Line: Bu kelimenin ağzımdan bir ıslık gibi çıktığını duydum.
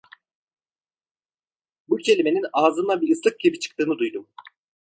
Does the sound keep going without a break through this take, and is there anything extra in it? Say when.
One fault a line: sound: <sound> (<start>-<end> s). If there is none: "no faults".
no faults